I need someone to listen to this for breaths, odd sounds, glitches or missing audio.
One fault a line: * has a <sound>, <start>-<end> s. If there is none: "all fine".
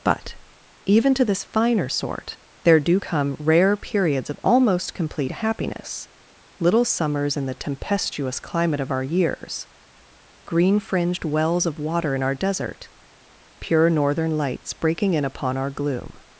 all fine